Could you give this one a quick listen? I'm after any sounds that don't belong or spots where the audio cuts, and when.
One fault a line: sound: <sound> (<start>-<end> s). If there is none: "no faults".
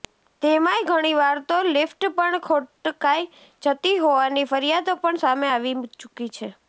no faults